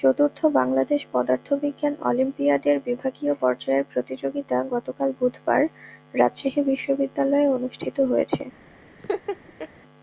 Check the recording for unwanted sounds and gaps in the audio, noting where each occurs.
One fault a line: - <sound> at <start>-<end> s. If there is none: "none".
- laugh at 9.0-9.7 s